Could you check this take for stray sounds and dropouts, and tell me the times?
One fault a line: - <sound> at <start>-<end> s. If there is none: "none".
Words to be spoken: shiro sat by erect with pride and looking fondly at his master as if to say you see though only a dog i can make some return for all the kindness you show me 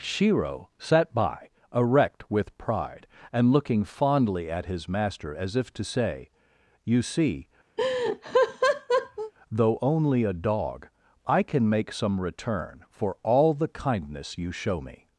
- laugh at 7.8-9.3 s